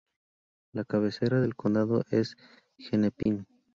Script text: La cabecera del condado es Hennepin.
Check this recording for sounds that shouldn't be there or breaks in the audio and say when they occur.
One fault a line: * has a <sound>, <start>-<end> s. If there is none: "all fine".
* has a dropout, 3.2-3.3 s